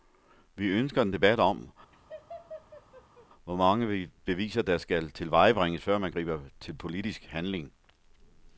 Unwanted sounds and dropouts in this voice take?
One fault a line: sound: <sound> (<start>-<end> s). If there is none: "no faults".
sound: laugh (1.9-3.3 s)